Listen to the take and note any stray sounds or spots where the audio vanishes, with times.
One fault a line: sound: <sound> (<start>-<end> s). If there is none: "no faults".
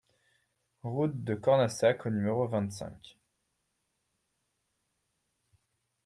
no faults